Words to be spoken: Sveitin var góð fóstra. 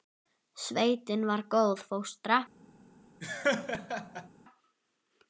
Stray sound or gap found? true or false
true